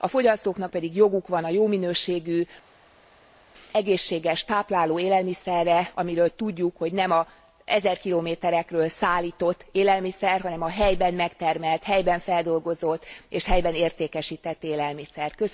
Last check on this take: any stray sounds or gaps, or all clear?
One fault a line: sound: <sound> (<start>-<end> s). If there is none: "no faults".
no faults